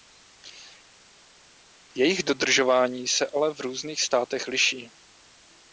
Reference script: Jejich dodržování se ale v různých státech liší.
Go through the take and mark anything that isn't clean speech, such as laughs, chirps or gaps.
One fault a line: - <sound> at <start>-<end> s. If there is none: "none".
none